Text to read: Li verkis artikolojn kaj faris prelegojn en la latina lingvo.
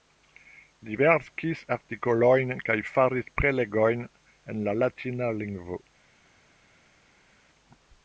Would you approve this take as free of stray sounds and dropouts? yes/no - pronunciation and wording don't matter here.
yes